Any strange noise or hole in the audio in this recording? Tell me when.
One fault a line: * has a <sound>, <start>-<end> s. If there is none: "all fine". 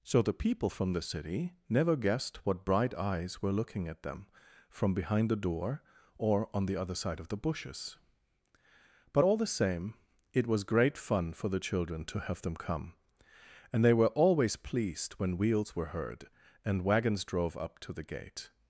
all fine